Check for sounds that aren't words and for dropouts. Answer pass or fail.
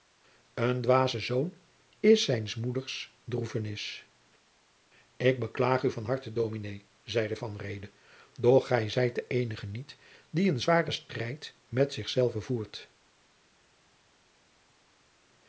pass